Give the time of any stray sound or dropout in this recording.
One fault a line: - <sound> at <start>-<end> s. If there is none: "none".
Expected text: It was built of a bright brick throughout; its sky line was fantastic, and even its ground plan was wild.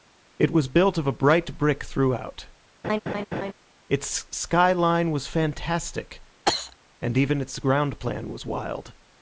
- laugh at 2.8-3.5 s
- cough at 6.5-6.8 s